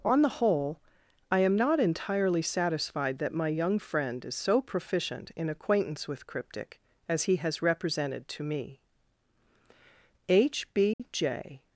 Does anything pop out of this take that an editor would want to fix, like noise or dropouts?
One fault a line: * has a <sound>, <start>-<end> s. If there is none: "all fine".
* has a dropout, 10.9-11.0 s